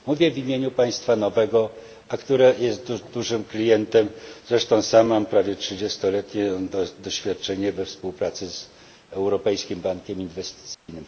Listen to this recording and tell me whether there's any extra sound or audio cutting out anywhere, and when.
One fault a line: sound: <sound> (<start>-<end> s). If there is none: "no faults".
sound: dropout (10.7-10.9 s)